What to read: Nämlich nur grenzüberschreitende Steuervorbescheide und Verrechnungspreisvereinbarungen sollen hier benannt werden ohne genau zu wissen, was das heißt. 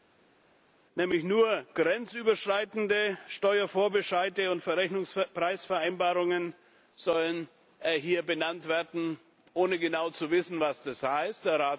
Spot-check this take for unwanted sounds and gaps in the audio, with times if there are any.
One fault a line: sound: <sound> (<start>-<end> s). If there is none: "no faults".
no faults